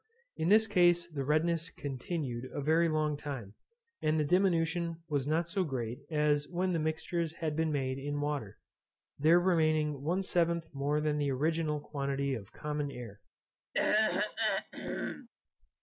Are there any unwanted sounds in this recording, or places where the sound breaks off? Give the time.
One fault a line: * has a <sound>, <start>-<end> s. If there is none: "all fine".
* has a throat clearing, 13.7-15.3 s